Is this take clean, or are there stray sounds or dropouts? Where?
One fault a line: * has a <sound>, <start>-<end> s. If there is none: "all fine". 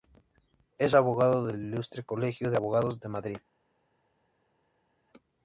all fine